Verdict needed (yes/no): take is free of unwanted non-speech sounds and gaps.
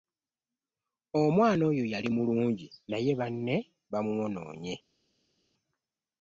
yes